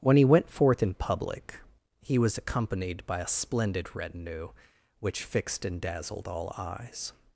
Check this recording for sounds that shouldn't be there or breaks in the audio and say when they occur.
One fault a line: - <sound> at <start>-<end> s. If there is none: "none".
none